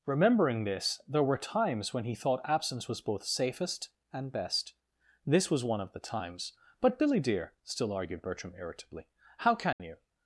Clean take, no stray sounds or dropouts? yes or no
no